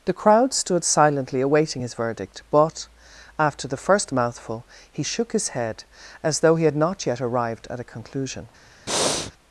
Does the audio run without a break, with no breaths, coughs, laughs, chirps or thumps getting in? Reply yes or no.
no